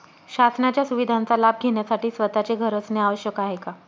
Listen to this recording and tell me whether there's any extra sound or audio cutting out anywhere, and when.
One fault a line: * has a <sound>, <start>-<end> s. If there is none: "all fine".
all fine